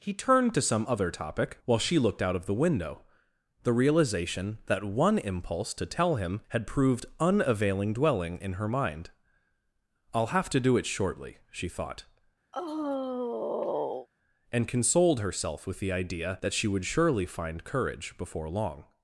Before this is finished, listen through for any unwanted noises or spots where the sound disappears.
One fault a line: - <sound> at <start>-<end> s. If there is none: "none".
- sigh at 12.5-14.1 s